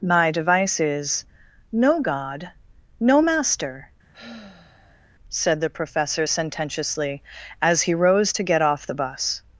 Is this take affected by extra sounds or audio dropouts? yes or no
yes